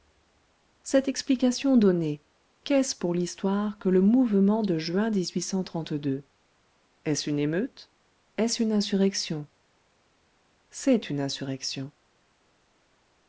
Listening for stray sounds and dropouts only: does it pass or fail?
pass